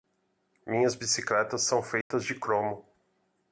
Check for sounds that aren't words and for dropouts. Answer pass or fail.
fail